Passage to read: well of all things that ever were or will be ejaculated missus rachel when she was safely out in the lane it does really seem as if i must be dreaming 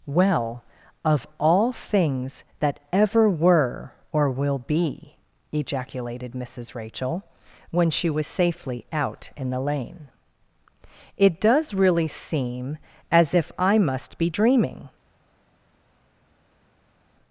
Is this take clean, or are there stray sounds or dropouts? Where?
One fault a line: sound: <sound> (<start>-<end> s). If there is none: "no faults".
no faults